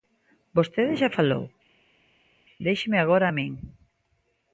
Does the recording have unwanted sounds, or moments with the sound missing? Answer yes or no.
no